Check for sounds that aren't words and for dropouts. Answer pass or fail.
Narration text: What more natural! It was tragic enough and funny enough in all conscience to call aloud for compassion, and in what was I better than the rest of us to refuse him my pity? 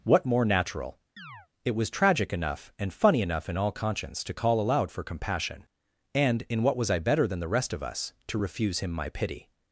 fail